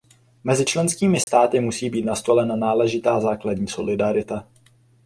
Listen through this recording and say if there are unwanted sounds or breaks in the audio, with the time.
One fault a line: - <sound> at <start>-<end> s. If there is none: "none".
- dropout at 1.2-1.3 s